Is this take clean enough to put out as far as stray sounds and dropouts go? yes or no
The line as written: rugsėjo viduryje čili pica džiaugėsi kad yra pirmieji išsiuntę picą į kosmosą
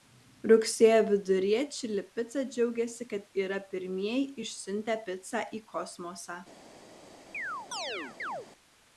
no